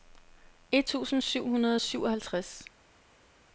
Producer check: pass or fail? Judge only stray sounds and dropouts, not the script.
pass